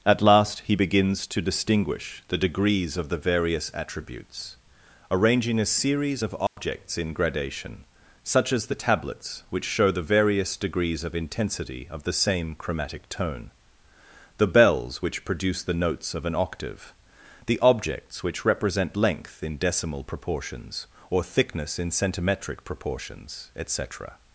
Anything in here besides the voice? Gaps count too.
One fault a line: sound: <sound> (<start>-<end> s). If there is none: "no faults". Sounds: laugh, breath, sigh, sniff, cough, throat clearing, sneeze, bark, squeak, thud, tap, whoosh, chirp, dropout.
sound: dropout (6.5-6.6 s)